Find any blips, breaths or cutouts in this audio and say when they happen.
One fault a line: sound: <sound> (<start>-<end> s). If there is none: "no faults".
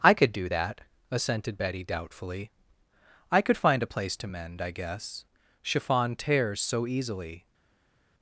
no faults